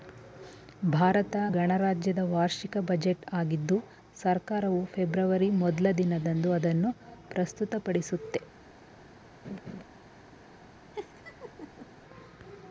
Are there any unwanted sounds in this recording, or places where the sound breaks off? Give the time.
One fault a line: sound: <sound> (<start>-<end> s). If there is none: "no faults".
sound: laugh (9.4-9.8 s)
sound: laugh (10.9-11.9 s)